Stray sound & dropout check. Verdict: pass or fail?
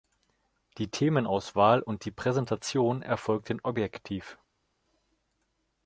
pass